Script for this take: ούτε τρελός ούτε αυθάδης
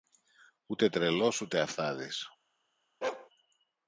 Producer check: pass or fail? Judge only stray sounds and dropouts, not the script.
fail